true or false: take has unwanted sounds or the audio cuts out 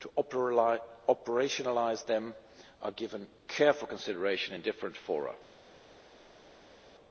false